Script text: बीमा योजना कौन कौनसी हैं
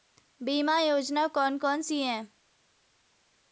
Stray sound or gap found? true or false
false